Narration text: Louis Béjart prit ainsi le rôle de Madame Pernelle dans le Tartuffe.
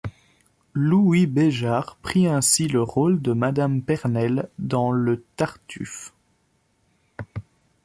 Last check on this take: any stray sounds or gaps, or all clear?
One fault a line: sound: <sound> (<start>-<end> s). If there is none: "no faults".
no faults